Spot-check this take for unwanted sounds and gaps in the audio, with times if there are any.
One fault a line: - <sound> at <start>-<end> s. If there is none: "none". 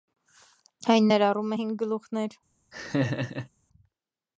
- laugh at 2.7-3.5 s